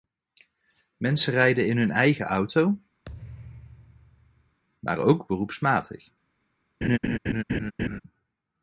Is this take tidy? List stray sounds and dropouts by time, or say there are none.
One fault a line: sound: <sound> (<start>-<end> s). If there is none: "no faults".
sound: thud (3.0-4.6 s)
sound: laugh (6.8-8.0 s)